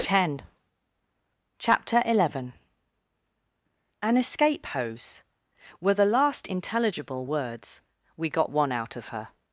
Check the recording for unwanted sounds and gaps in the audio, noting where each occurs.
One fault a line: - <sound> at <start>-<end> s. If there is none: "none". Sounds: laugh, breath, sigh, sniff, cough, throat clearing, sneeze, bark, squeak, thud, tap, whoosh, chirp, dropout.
none